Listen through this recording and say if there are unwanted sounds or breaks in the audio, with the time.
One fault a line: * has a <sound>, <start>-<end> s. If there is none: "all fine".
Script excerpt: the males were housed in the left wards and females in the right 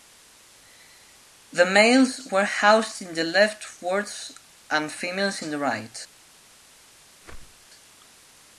* has a whoosh, 7.2-7.7 s